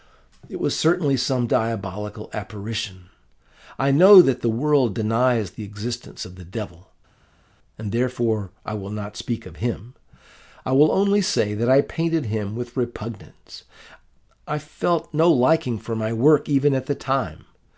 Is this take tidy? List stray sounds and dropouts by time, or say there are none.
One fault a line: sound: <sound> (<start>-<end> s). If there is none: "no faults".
no faults